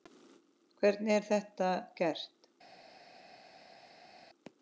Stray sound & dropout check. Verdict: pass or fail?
pass